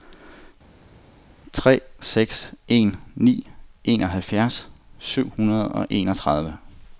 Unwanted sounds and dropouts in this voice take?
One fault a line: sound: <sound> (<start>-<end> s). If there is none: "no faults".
no faults